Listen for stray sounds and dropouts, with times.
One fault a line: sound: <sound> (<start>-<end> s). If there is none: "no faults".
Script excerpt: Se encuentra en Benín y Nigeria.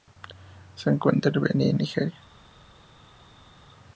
no faults